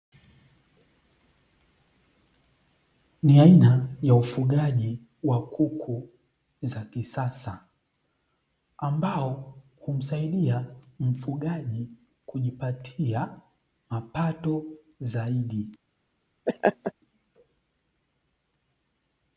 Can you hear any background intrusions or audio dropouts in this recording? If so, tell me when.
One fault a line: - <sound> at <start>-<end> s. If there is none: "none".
- laugh at 16.5-16.9 s